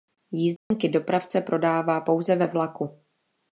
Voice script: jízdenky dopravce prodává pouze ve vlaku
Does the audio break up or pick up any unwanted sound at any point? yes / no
yes